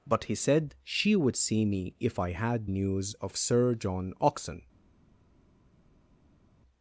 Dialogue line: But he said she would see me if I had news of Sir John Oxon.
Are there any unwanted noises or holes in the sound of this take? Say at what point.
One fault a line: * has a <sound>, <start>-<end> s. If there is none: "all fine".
all fine